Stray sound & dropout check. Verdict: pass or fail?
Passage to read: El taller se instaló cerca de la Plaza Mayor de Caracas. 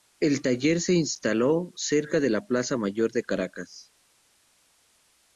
pass